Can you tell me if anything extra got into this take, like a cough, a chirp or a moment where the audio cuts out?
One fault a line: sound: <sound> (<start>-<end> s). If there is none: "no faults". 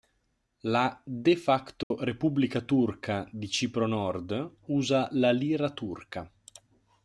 sound: dropout (1.8-1.9 s)